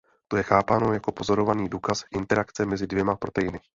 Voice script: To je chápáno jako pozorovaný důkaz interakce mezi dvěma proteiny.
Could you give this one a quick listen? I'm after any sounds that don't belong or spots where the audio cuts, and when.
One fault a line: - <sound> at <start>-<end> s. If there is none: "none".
none